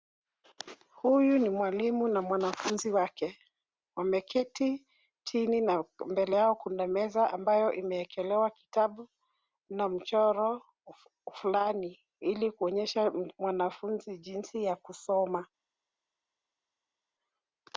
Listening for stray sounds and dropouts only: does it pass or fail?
pass